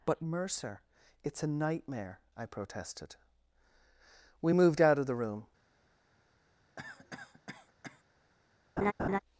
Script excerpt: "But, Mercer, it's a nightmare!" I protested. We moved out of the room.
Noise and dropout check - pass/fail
fail